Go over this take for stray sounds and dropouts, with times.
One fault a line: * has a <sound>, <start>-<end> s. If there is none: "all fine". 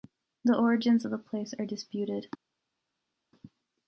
all fine